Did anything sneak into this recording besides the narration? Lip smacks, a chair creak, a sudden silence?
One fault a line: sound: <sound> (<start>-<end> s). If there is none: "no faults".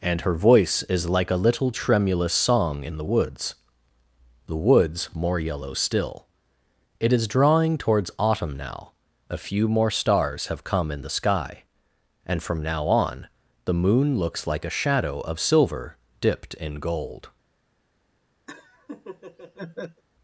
sound: laugh (18.5-20.0 s)